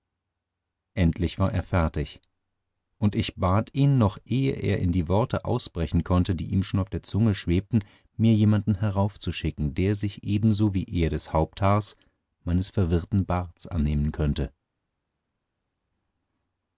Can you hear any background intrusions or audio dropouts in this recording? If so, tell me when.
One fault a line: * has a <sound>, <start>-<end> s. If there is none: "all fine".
all fine